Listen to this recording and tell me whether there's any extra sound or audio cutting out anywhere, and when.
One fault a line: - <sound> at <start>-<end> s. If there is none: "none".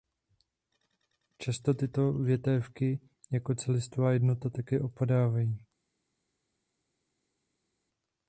none